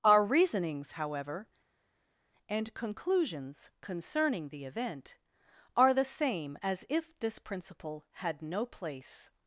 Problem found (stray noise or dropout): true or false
false